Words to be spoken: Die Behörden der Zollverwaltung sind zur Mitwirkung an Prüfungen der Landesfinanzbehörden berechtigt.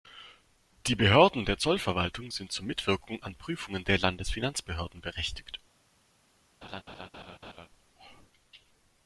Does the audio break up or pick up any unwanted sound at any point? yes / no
yes